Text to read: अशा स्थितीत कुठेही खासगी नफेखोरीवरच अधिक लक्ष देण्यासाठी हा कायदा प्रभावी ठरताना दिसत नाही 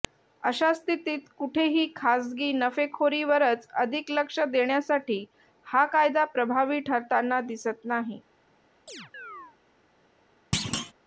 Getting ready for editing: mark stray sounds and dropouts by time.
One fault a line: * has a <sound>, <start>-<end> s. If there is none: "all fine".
* has a chirp, 8.9-9.6 s
* has a thud, 10.5-10.9 s